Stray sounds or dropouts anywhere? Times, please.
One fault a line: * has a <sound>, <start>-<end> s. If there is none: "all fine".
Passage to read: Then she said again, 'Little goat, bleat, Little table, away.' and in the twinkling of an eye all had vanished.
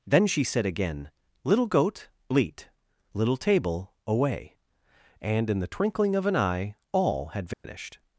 * has a dropout, 7.5-7.6 s